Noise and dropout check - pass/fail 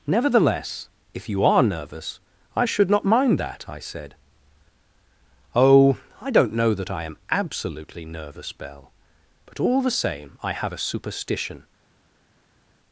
pass